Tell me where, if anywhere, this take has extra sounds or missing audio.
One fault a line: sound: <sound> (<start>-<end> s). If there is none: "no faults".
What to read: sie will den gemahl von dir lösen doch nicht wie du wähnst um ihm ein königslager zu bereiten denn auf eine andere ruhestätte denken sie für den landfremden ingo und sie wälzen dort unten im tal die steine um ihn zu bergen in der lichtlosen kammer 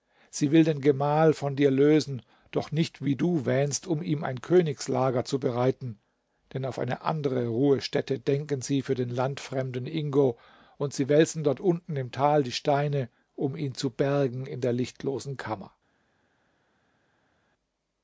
no faults